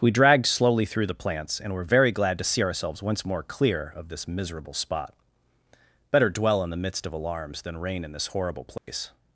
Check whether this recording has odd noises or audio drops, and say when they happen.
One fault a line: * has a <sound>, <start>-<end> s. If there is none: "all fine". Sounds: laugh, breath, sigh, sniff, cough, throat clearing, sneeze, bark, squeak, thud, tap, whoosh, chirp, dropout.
* has a dropout, 8.8-8.9 s